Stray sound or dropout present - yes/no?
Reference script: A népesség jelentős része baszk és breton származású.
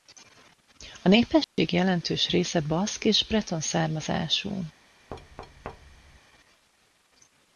yes